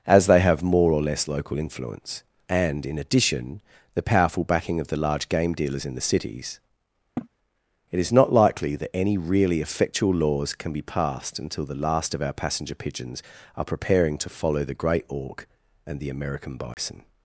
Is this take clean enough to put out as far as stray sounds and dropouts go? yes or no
no